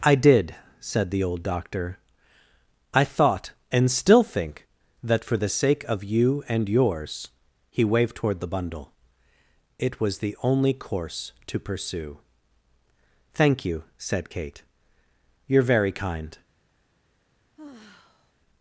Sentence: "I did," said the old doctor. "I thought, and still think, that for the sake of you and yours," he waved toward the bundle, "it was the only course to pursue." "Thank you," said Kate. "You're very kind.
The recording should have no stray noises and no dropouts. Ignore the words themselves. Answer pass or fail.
fail